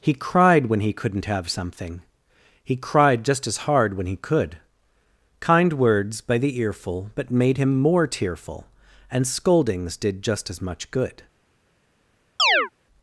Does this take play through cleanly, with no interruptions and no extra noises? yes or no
no